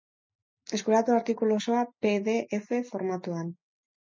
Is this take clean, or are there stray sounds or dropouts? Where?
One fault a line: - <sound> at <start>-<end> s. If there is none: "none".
none